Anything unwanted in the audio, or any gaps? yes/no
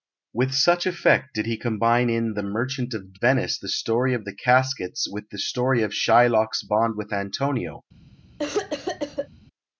yes